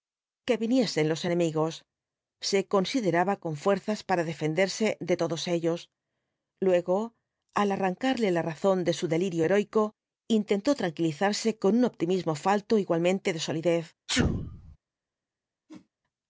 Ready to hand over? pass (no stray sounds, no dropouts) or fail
fail